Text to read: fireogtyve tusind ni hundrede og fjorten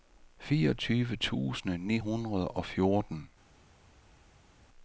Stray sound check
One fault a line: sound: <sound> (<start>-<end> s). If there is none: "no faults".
no faults